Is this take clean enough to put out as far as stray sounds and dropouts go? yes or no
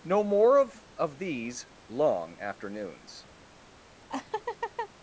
no